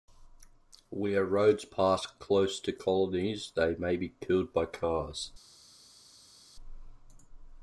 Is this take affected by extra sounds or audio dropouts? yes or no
no